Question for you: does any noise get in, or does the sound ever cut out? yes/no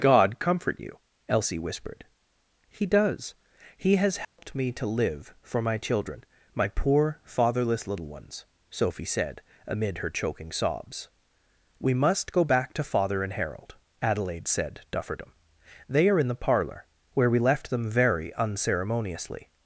yes